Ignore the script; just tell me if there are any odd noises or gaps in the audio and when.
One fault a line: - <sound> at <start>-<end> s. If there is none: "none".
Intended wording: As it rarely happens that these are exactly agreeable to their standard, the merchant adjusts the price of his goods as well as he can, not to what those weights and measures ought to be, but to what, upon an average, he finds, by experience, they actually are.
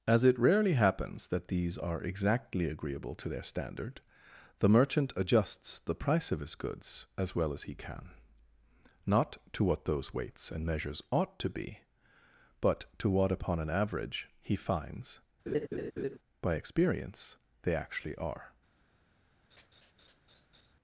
- laugh at 15.5-16.2 s
- laugh at 19.5-20.7 s